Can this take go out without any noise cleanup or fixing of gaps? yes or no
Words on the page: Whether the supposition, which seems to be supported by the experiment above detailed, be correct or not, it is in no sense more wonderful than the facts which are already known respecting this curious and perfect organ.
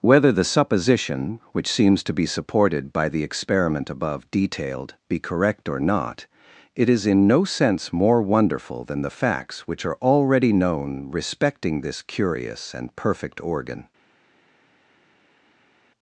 yes